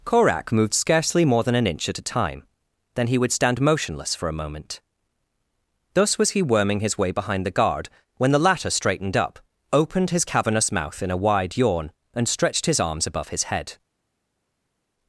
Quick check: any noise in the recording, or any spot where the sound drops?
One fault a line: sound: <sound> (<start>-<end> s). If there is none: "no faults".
no faults